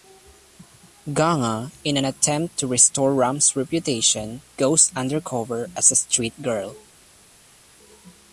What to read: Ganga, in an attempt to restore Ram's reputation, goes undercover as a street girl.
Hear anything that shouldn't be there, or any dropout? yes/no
no